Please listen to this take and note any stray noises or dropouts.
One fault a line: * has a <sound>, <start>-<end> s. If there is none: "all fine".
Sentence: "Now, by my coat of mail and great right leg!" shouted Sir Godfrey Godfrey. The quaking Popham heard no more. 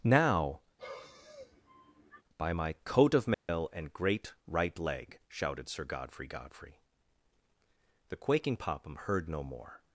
* has a sigh, 0.8-2.2 s
* has a dropout, 3.3-3.5 s